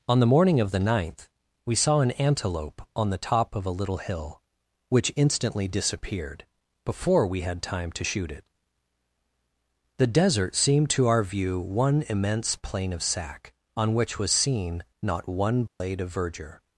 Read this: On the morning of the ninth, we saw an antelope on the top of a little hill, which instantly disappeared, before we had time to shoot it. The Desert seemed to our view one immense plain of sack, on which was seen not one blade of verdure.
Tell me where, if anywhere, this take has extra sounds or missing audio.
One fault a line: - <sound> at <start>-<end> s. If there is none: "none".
- dropout at 15.7-15.8 s